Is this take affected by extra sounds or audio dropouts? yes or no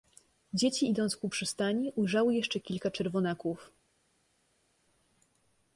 no